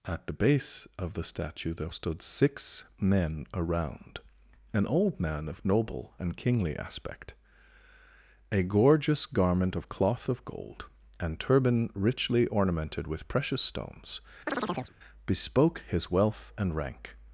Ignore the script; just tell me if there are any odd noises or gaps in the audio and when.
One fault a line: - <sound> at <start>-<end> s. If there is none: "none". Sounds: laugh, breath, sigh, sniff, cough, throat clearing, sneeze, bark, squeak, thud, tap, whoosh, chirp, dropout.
- chirp at 14.5-14.9 s